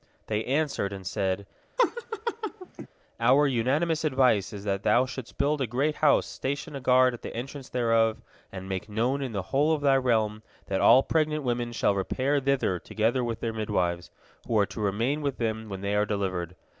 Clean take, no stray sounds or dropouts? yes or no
no